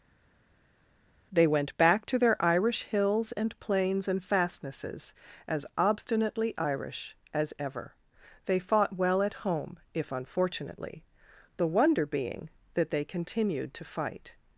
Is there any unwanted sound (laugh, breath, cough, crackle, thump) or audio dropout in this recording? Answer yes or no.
no